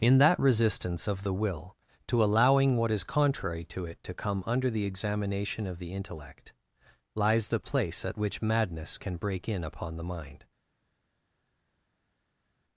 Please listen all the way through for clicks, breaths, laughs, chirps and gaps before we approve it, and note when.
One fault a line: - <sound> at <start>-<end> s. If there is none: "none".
none